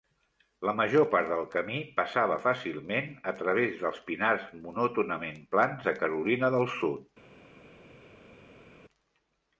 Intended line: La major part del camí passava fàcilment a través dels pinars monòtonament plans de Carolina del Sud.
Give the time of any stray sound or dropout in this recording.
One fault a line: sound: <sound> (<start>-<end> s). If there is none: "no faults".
no faults